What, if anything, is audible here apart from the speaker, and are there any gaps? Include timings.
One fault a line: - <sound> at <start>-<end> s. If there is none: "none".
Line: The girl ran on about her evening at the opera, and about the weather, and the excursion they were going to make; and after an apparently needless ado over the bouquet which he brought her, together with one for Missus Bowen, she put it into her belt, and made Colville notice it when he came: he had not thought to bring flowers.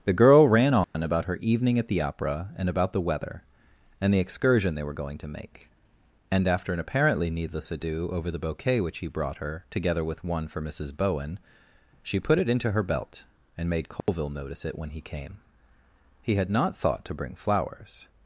- dropout at 0.8-0.9 s
- dropout at 14.0-14.1 s